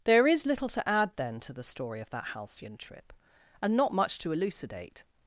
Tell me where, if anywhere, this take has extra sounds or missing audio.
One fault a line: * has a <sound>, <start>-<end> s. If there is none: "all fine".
all fine